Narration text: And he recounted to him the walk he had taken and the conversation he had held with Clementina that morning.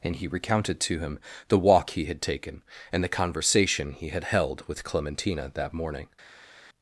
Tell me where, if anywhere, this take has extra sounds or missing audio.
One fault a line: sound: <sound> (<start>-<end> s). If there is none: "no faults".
no faults